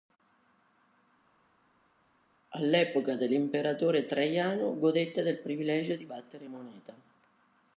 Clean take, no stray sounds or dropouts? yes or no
yes